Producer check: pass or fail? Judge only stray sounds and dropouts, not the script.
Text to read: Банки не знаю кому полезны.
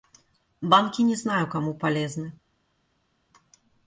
pass